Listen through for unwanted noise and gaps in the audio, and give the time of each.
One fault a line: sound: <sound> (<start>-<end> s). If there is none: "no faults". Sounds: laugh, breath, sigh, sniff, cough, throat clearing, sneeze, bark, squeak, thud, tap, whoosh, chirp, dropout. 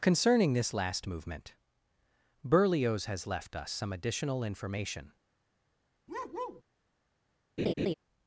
sound: bark (6.1-6.6 s)
sound: laugh (7.6-7.9 s)